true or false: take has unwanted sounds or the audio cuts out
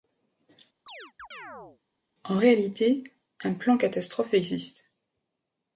true